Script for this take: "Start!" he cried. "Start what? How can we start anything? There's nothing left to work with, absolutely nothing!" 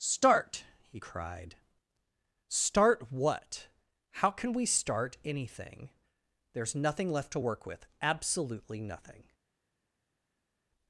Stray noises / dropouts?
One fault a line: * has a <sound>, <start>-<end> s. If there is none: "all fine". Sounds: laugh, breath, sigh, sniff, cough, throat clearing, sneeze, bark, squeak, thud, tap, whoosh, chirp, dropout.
all fine